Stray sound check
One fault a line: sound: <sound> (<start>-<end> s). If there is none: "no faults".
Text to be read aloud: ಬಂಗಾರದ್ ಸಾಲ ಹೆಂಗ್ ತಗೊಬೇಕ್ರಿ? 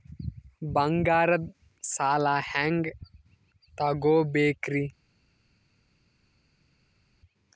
no faults